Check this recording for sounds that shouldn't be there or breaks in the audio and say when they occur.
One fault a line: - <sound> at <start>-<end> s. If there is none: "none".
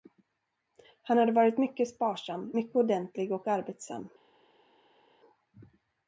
none